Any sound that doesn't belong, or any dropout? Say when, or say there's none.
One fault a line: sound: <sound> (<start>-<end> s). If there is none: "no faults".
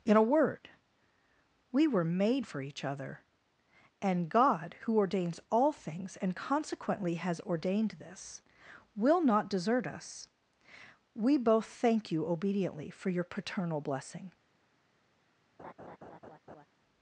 sound: laugh (15.6-16.7 s)